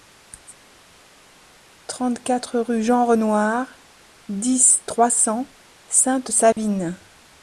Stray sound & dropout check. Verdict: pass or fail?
fail